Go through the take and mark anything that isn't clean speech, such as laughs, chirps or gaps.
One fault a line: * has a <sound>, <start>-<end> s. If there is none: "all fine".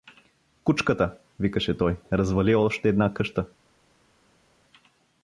all fine